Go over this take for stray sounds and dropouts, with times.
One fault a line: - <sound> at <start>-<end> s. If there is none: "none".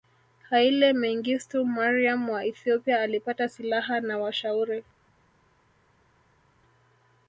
none